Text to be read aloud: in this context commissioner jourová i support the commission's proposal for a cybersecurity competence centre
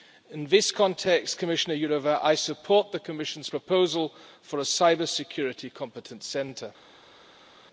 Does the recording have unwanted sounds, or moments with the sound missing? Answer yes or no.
no